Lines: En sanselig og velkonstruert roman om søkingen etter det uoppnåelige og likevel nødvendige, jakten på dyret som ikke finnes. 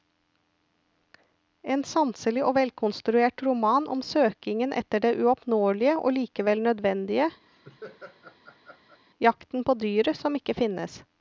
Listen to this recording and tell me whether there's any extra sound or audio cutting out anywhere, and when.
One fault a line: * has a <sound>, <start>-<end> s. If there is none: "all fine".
* has a laugh, 7.5-9.0 s